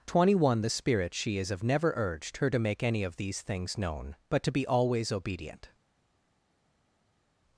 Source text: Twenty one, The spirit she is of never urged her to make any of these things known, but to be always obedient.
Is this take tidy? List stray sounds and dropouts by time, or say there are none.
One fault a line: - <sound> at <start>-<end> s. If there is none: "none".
none